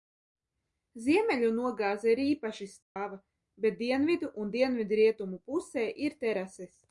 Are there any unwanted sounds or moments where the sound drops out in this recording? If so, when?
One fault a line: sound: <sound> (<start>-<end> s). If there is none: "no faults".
sound: dropout (2.8-3.0 s)